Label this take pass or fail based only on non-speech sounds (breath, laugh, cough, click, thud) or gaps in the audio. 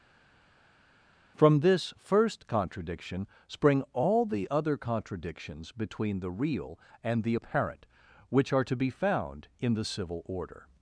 pass